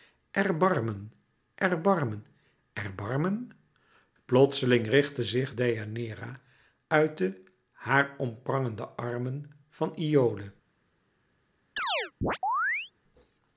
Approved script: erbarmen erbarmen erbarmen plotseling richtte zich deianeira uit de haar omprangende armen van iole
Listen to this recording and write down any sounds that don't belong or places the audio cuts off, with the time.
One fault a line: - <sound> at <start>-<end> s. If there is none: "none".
- chirp at 11.8-12.9 s